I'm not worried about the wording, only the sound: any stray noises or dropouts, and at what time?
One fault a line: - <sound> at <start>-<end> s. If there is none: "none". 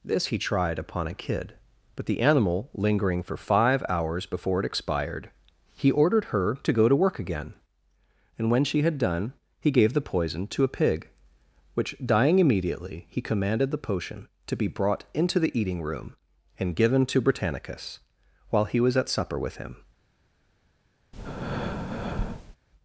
- breath at 21.1-22.6 s